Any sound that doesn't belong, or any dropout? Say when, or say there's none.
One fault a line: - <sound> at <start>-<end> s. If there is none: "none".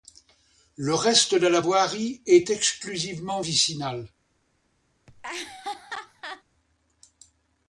- laugh at 5.1-6.4 s